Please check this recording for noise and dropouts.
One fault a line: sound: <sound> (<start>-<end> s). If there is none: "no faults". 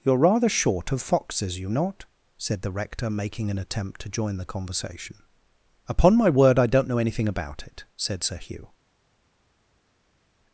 no faults